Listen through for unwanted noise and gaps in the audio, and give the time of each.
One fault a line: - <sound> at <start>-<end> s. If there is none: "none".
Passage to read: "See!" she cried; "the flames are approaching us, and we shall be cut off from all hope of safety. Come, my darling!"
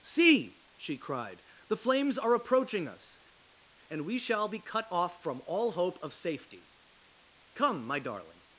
none